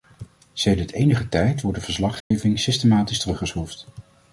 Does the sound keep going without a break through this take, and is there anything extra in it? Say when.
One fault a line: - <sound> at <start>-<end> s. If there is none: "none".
- dropout at 2.2-2.3 s